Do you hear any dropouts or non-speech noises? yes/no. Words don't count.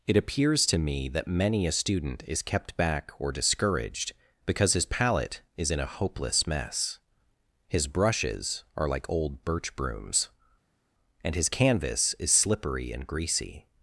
no